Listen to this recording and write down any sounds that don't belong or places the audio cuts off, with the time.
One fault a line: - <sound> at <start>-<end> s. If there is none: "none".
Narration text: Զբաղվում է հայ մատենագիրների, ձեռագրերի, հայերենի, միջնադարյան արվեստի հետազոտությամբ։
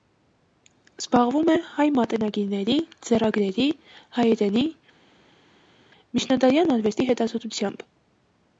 none